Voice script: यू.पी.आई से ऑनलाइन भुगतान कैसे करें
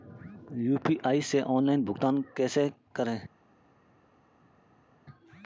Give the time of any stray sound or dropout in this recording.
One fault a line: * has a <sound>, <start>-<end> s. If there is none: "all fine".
all fine